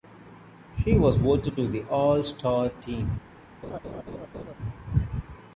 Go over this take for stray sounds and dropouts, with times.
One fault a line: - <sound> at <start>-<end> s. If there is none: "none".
- laugh at 3.6-4.5 s